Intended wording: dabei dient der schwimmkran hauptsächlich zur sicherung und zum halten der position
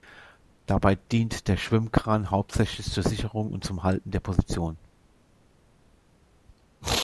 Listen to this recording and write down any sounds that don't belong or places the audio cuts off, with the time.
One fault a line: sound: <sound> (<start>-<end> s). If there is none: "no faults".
no faults